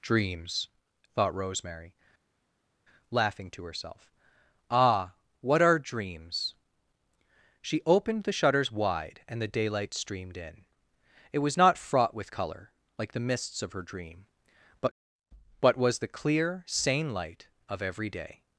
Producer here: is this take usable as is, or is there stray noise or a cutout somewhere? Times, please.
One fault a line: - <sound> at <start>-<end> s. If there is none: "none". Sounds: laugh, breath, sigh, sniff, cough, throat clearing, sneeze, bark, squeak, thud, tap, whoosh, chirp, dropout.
none